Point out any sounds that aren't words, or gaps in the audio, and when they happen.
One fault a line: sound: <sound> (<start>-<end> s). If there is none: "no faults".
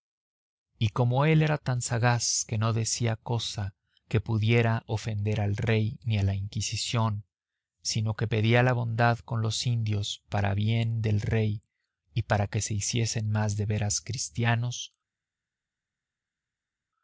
no faults